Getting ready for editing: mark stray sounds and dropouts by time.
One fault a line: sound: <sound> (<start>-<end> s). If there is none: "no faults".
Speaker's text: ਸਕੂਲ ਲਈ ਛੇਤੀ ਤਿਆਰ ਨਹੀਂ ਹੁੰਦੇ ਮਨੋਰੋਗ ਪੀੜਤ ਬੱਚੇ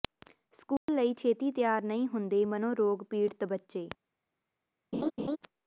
sound: dropout (0.8-0.9 s)
sound: laugh (4.9-5.4 s)